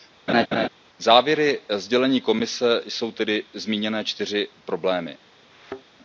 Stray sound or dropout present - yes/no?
yes